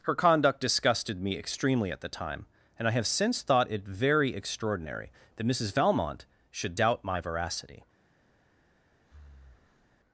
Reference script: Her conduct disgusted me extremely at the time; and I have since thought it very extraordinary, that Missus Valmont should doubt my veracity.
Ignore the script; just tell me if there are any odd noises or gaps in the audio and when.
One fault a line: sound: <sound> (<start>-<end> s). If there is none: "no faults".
sound: breath (9.0-10.0 s)